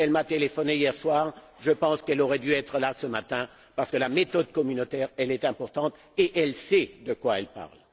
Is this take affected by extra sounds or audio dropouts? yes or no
no